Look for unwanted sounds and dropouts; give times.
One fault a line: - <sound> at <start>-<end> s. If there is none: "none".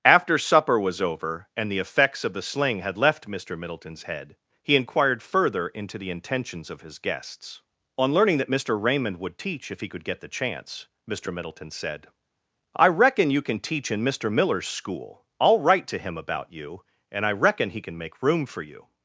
none